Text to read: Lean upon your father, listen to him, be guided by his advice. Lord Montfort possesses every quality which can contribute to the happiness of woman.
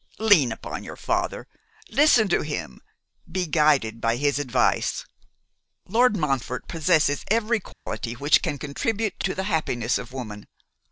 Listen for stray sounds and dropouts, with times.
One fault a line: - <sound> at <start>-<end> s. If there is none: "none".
- dropout at 7.7-7.9 s